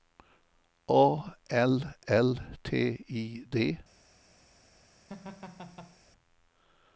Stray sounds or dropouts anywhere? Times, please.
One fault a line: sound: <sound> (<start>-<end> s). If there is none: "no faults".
sound: laugh (5.1-6.0 s)